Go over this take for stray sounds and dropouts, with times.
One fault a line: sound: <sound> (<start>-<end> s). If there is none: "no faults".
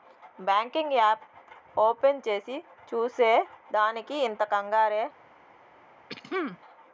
sound: throat clearing (6.1-6.6 s)